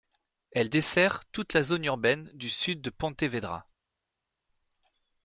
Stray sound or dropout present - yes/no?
no